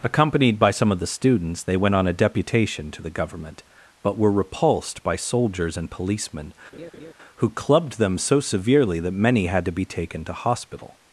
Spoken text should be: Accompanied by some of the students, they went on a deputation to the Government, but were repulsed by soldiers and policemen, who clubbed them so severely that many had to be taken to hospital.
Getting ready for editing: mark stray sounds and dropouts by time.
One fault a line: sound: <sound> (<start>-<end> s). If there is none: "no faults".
sound: laugh (6.7-7.1 s)